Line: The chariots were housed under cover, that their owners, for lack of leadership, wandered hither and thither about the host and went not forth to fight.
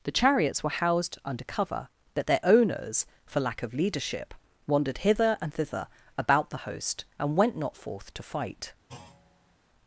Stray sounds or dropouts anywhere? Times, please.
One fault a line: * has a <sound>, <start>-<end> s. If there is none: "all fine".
* has a thud, 8.9-9.6 s